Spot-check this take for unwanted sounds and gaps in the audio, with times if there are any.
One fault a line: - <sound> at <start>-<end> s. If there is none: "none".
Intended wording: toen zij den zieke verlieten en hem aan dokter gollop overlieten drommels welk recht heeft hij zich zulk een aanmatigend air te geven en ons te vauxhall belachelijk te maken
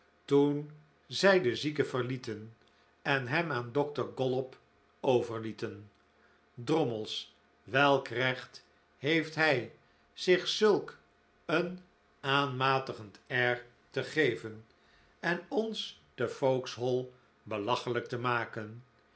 none